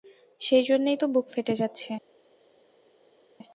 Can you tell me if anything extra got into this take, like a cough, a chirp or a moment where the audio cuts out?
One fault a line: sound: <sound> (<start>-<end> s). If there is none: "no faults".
no faults